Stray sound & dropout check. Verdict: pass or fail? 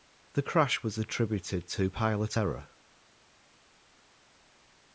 pass